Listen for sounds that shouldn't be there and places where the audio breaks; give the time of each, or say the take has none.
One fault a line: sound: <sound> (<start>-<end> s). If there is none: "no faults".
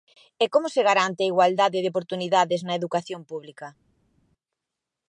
no faults